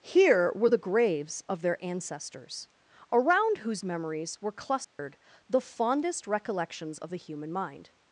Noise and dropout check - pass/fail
fail